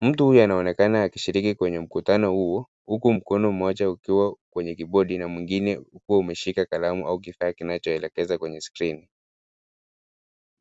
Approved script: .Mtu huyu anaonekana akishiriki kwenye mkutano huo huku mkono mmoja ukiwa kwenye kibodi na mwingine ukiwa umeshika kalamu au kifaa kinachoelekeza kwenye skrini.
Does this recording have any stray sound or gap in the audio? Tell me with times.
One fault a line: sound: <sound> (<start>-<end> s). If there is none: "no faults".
no faults